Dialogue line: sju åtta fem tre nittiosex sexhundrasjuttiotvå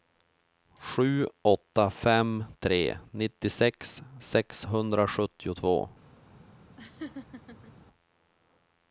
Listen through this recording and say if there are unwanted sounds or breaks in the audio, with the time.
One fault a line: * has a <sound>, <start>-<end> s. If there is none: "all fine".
* has a laugh, 6.8-7.7 s